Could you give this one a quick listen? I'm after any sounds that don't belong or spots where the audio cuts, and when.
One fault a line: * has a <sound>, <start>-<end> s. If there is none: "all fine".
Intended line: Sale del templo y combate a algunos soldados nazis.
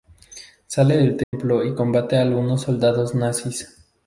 * has a dropout, 1.2-1.3 s